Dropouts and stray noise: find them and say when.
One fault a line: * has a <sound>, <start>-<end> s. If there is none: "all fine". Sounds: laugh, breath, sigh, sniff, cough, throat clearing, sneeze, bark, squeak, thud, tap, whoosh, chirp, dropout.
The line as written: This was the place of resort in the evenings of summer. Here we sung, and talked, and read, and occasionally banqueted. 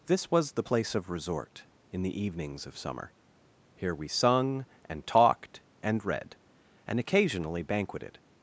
all fine